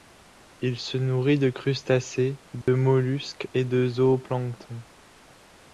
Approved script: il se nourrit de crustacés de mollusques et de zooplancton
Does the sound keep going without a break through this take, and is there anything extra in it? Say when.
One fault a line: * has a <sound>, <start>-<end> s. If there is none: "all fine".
* has a dropout, 2.6-2.7 s